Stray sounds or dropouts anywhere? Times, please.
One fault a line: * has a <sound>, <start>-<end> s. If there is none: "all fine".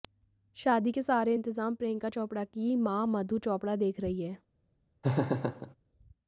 * has a laugh, 5.0-5.8 s